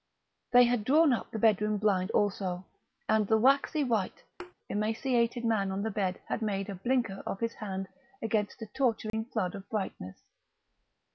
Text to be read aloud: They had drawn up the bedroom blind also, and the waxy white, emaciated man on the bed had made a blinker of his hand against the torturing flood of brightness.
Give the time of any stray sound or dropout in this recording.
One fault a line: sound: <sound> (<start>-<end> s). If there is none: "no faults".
sound: thud (4.4-4.5 s)
sound: dropout (9.1-9.1 s)